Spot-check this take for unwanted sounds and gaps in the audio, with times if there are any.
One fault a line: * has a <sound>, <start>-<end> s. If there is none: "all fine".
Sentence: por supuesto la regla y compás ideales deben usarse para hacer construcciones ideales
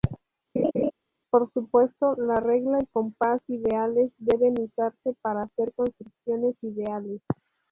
* has a laugh, 0.6-0.9 s